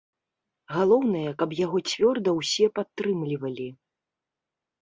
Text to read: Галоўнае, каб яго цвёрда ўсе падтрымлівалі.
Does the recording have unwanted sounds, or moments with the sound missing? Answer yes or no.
no